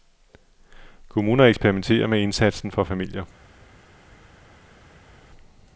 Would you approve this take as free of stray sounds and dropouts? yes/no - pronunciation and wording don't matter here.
yes